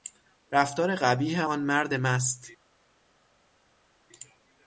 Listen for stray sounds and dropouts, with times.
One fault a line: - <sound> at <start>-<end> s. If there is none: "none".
none